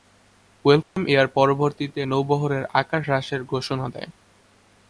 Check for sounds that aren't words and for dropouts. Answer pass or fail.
fail